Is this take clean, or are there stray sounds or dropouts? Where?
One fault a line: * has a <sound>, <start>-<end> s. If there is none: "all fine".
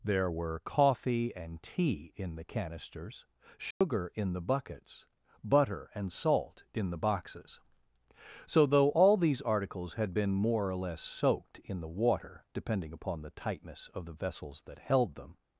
* has a dropout, 3.7-3.8 s